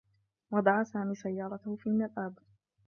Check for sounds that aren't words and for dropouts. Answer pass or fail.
pass